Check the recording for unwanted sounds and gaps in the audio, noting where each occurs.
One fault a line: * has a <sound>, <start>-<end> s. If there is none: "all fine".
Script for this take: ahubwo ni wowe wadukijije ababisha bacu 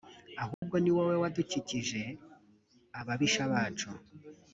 * has a dropout, 0.5-0.6 s